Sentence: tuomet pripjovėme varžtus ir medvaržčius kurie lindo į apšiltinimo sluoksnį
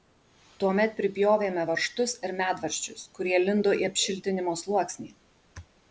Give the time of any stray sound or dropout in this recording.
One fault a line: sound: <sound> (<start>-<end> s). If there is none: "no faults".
no faults